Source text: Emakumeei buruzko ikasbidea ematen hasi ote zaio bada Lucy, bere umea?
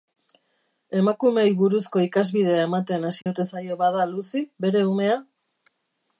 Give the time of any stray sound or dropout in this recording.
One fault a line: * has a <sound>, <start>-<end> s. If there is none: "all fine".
* has a dropout, 3.2-3.3 s